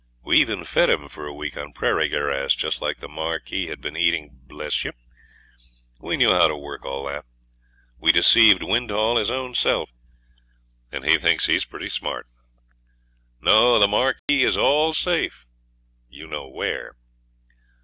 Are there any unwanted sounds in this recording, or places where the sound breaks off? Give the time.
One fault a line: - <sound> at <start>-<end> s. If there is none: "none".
- dropout at 14.2-14.3 s